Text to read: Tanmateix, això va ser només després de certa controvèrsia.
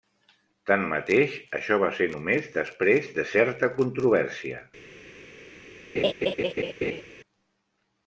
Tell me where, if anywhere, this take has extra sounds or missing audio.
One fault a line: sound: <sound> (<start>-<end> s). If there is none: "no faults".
sound: laugh (5.9-7.0 s)